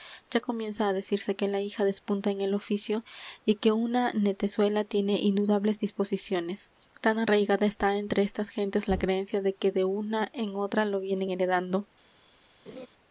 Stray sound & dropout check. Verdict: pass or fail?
fail